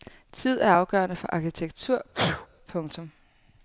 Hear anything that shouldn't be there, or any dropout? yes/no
yes